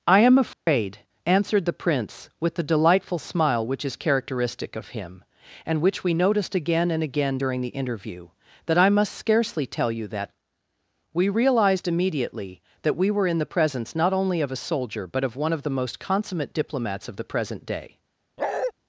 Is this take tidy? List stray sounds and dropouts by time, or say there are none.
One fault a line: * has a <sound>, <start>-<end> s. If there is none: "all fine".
* has a dropout, 0.5-0.7 s
* has a bark, 18.4-18.7 s